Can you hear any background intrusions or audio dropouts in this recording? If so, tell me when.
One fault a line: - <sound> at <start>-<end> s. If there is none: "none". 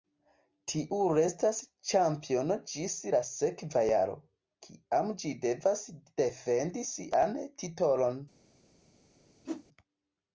- whoosh at 9.4-9.6 s